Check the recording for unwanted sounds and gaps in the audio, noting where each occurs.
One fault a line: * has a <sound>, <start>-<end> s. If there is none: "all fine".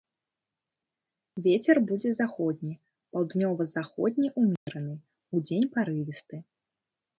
* has a dropout, 4.6-4.7 s